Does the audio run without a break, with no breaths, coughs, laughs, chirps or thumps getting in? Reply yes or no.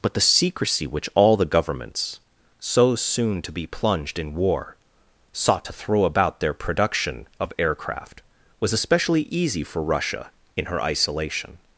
yes